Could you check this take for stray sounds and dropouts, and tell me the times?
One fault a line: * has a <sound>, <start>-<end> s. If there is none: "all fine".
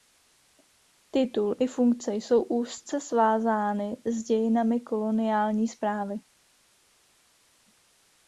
all fine